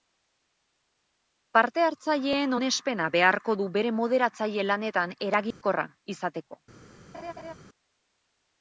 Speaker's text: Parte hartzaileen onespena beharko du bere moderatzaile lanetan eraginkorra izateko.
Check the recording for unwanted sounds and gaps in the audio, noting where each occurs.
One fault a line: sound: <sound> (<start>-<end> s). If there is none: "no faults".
sound: dropout (5.5-5.6 s)
sound: laugh (7.1-7.5 s)